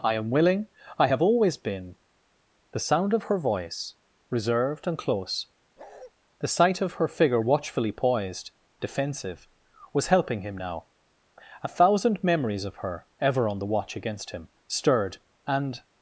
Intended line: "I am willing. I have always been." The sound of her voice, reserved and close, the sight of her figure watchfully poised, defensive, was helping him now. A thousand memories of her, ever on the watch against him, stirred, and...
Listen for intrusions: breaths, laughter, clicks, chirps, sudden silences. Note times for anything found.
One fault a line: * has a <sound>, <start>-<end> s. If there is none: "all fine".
* has a bark, 5.8-6.1 s